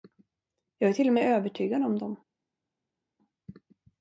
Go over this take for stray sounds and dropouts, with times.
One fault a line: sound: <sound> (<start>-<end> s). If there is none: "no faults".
no faults